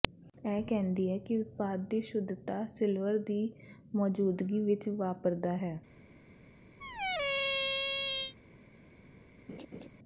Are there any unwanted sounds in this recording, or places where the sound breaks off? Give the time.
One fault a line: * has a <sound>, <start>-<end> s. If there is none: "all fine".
* has a squeak, 6.8-8.3 s
* has a laugh, 9.5-9.9 s